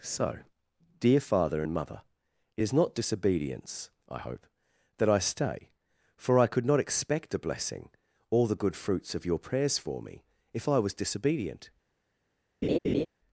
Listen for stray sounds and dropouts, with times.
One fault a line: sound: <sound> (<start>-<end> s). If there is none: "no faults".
sound: laugh (12.6-13.1 s)